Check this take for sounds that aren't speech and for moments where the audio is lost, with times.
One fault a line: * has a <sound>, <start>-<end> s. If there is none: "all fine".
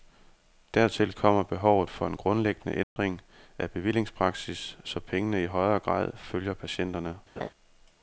* has a dropout, 2.8-3.0 s
* has a laugh, 7.4-7.5 s